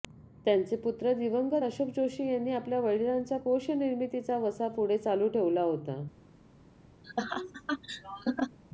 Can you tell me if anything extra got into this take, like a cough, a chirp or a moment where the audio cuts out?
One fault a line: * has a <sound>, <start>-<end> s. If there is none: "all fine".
* has a laugh, 7.0-8.6 s